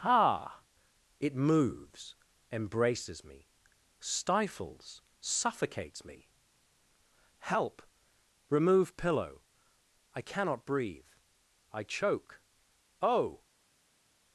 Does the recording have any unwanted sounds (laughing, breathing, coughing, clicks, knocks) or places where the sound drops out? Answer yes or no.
no